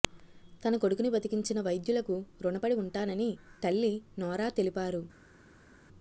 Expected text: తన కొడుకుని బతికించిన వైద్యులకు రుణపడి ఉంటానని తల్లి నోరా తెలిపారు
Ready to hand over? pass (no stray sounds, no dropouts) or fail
pass